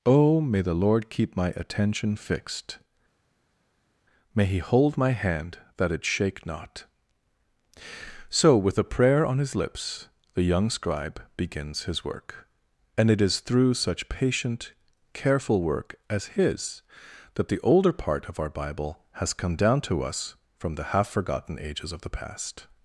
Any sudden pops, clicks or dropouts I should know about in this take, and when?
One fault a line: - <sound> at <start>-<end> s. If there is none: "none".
none